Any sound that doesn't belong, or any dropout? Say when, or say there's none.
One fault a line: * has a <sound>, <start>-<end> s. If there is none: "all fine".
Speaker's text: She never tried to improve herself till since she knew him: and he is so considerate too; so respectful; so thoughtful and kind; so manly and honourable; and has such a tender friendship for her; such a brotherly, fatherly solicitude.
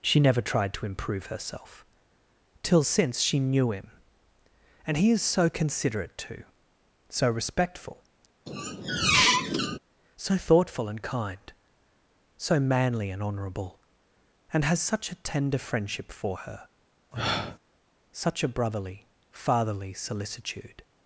* has a squeak, 8.5-9.8 s
* has a sniff, 17.1-17.6 s